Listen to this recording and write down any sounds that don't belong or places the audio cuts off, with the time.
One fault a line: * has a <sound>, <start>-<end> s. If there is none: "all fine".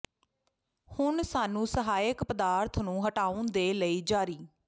all fine